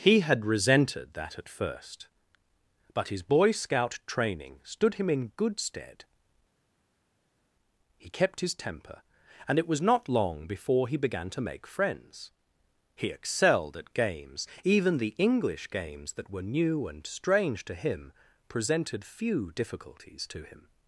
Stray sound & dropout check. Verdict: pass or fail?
pass